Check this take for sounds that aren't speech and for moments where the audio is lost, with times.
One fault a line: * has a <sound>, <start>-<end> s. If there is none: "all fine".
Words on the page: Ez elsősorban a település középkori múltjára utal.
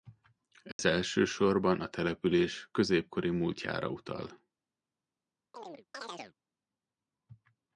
* has a dropout, 0.7-0.8 s
* has a chirp, 5.5-6.3 s